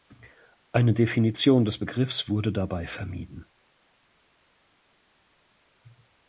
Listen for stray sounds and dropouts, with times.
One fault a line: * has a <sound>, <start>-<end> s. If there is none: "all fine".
all fine